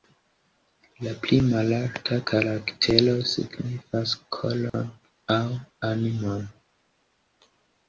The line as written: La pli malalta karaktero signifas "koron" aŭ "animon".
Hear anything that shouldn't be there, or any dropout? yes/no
yes